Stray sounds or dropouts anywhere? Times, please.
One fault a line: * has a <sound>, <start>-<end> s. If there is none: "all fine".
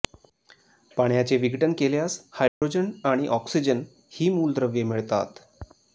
* has a dropout, 2.5-2.6 s